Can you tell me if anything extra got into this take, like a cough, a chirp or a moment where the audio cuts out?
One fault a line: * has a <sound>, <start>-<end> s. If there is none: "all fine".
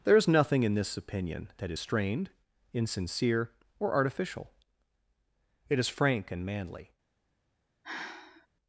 * has a sigh, 7.8-8.5 s